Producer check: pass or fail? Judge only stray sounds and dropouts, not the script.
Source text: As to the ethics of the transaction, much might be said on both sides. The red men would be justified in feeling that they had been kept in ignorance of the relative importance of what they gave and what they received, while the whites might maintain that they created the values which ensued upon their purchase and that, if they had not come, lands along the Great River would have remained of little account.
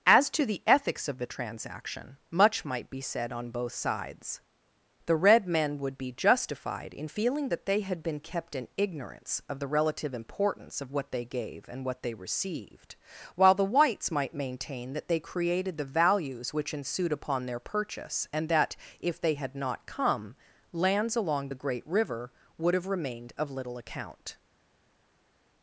pass